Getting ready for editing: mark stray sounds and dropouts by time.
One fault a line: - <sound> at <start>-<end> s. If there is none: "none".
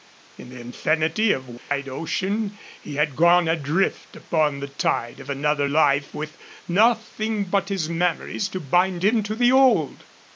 - dropout at 1.6-1.7 s